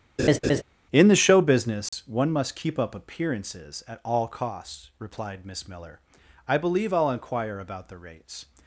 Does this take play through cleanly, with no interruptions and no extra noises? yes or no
no